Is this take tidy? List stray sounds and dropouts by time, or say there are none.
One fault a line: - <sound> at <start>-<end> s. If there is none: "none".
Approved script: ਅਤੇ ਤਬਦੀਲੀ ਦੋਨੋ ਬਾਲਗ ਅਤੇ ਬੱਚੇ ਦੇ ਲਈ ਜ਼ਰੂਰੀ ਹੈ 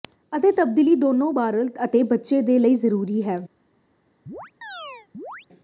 - chirp at 4.3-5.5 s